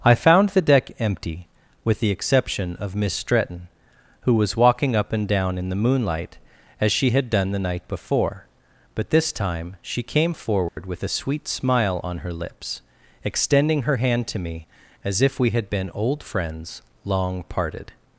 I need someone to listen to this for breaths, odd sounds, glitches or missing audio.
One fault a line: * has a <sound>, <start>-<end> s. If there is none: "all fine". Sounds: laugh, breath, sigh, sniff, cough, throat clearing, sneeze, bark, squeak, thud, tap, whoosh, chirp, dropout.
* has a dropout, 10.7-10.8 s